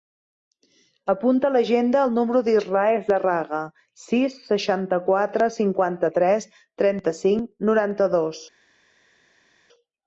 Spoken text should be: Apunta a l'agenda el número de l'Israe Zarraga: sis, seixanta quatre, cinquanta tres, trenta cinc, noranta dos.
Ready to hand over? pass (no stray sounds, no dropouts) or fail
pass